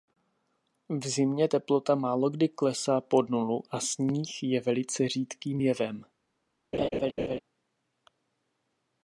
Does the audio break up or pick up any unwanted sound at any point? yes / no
yes